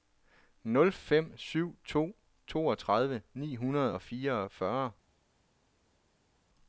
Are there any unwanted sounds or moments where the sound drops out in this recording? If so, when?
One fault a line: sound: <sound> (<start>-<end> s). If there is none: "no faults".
no faults